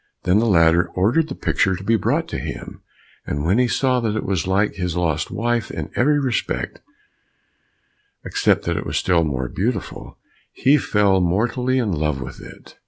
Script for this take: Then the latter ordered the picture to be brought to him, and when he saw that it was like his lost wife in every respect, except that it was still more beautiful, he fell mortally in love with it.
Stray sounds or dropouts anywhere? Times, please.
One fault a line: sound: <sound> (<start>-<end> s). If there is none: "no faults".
no faults